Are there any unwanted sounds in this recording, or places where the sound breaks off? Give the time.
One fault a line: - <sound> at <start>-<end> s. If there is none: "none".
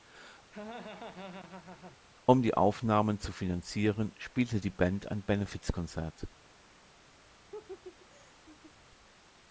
- laugh at 0.5-2.0 s
- laugh at 7.5-8.7 s